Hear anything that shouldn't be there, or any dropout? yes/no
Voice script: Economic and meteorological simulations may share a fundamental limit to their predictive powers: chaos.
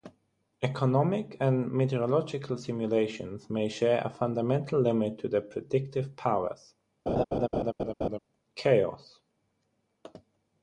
yes